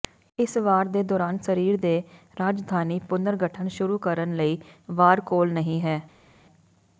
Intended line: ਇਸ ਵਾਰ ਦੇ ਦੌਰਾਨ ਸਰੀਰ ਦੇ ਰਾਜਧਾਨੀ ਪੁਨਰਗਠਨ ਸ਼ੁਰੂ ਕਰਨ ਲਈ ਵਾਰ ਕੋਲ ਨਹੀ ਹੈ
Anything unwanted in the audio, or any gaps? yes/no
no